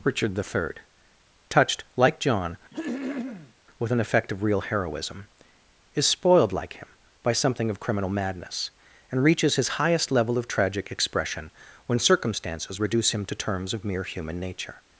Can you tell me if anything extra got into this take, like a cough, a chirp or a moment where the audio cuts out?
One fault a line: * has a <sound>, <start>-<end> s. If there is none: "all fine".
* has a throat clearing, 2.7-3.5 s